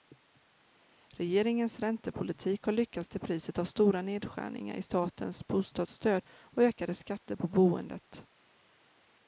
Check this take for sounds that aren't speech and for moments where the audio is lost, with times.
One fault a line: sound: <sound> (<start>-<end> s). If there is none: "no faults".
no faults